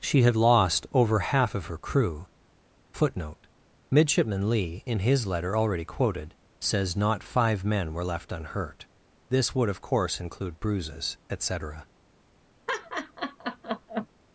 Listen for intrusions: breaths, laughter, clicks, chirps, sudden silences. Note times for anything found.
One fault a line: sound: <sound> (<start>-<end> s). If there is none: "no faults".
sound: laugh (12.7-14.1 s)